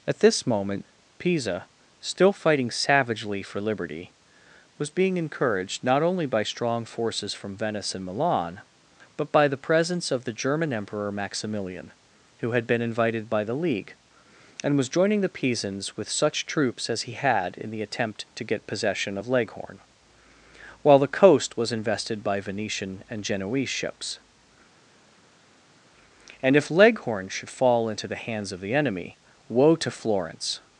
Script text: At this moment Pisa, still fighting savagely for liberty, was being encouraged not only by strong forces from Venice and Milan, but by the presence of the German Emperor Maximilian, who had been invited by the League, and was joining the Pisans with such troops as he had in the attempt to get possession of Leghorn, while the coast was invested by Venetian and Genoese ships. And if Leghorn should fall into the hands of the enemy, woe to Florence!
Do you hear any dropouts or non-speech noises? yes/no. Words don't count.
no